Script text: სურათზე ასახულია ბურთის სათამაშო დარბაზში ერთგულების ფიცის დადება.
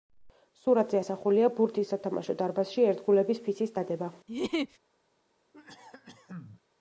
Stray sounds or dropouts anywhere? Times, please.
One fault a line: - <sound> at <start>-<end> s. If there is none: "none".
- laugh at 4.3-4.8 s
- cough at 5.5-6.6 s